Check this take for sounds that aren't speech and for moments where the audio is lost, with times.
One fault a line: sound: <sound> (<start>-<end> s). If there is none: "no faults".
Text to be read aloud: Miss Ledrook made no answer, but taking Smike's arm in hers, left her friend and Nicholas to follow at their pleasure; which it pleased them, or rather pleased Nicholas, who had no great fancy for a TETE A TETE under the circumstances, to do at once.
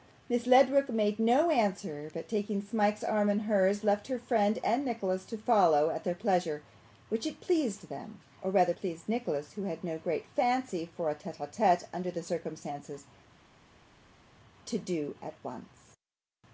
no faults